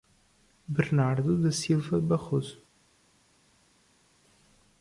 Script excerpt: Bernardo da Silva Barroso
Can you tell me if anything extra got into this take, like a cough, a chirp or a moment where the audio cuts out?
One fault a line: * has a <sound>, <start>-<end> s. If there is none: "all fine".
all fine